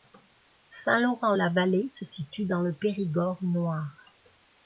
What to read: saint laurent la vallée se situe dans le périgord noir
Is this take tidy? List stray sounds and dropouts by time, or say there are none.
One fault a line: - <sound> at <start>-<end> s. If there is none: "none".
none